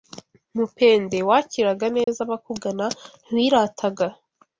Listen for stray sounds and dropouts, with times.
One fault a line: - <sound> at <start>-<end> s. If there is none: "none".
- dropout at 2.0-2.1 s